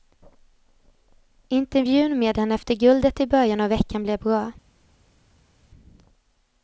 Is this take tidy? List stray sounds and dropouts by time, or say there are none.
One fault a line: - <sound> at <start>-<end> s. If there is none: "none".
none